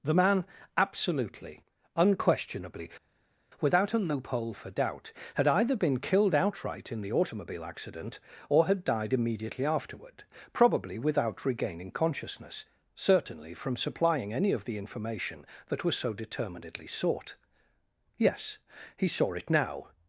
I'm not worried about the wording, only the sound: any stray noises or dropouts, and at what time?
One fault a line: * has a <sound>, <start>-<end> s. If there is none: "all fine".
all fine